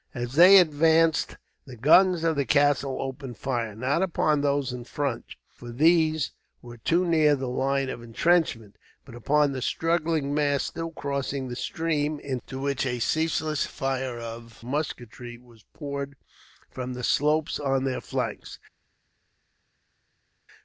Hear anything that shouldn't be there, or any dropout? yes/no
no